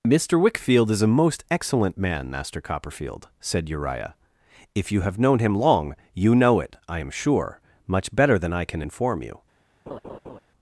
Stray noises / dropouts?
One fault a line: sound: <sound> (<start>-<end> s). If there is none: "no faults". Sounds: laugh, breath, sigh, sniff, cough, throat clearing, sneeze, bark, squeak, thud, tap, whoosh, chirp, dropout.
sound: laugh (9.9-10.4 s)